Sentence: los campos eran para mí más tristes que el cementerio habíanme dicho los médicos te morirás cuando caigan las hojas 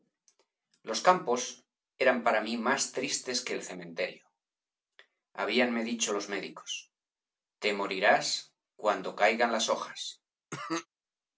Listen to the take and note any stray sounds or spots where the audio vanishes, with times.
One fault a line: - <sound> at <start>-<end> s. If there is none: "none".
- cough at 10.5-10.9 s